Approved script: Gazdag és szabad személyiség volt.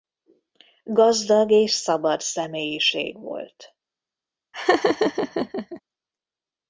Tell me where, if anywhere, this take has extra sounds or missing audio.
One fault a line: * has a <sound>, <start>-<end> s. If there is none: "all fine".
* has a laugh, 4.5-5.8 s